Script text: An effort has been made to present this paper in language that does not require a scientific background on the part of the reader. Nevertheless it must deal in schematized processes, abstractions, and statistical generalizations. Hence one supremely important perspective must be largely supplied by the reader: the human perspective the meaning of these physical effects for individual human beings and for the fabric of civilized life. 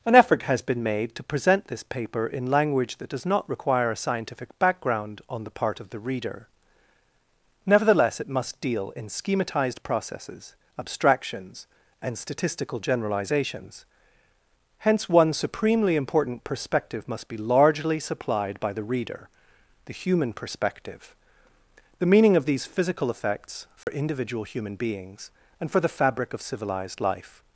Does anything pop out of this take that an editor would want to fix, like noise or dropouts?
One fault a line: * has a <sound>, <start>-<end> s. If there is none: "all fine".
* has a dropout, 23.8-23.9 s